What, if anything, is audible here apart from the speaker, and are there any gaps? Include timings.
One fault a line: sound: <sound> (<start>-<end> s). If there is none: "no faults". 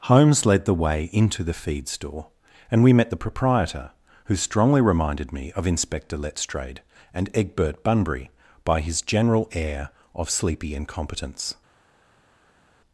no faults